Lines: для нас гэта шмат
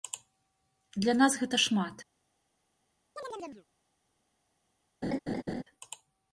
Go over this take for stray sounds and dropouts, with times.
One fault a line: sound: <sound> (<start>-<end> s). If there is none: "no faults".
sound: chirp (3.2-3.7 s)
sound: laugh (5.0-5.6 s)